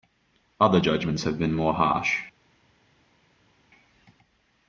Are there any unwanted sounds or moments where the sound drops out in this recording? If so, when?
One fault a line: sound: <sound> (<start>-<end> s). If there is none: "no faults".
no faults